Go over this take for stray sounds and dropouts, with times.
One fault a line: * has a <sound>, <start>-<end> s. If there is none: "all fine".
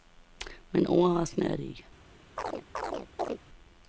* has a chirp, 2.4-3.4 s